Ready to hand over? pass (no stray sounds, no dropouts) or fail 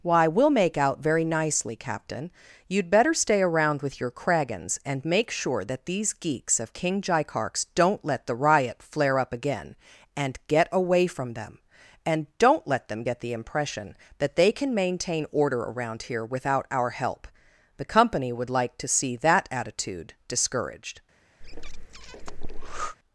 fail